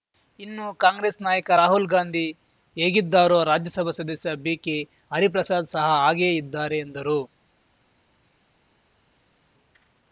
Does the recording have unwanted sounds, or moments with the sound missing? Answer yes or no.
no